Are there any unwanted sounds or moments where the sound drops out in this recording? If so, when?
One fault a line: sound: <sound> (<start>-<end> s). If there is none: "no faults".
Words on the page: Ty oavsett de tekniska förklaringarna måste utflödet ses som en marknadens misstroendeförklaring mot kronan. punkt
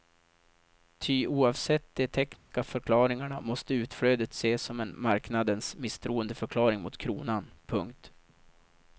sound: dropout (2.4-2.5 s)